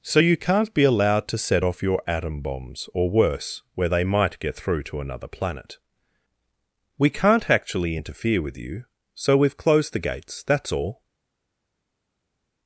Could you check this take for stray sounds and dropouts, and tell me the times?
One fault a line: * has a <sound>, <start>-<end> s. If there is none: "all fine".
all fine